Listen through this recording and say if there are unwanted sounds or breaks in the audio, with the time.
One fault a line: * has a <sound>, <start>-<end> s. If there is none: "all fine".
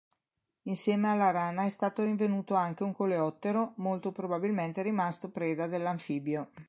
all fine